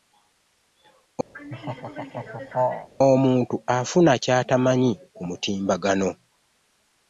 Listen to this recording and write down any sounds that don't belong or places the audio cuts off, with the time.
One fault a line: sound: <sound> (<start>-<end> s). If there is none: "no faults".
sound: laugh (1.3-2.9 s)